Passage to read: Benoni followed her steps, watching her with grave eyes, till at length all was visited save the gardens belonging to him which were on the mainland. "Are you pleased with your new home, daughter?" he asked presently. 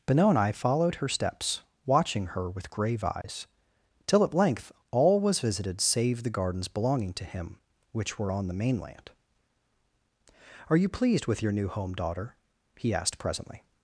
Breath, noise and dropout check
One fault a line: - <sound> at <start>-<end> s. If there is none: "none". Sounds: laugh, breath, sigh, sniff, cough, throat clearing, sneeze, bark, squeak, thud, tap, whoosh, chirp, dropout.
- dropout at 3.2-3.2 s